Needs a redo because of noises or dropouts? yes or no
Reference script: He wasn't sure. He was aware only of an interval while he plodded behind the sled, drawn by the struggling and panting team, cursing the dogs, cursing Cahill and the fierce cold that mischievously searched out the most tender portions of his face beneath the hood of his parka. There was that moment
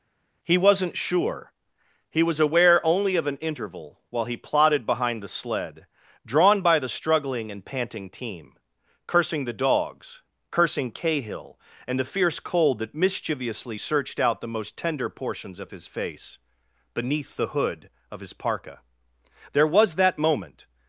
no